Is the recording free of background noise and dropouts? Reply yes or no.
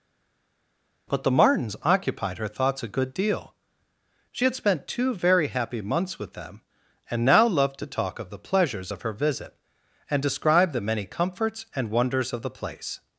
yes